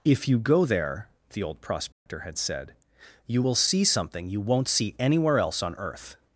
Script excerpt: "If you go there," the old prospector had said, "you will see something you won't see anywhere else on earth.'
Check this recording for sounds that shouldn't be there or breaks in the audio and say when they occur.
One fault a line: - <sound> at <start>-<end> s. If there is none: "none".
- dropout at 1.9-2.1 s